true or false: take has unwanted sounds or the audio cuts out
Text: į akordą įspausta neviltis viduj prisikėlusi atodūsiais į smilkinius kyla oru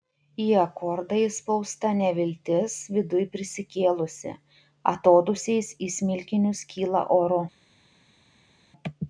false